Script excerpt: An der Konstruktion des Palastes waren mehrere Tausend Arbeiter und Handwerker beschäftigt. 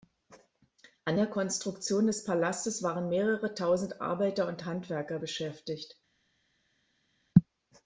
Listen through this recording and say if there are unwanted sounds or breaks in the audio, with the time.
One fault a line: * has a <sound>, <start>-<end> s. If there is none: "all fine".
all fine